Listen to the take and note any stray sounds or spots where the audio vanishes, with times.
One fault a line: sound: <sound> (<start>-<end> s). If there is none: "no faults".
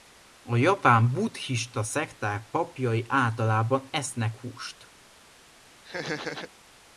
sound: laugh (5.8-6.5 s)